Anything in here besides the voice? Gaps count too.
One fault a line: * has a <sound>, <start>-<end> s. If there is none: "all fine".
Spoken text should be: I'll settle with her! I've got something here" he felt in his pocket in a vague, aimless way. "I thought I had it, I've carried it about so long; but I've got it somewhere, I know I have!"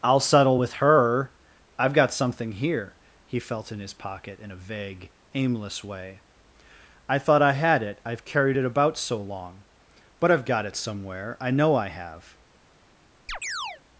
* has a chirp, 13.3-13.8 s